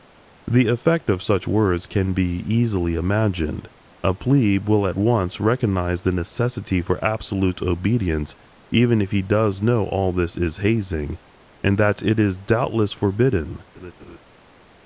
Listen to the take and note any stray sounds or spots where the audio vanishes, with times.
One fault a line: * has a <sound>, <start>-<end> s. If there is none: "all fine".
* has a laugh, 13.7-14.2 s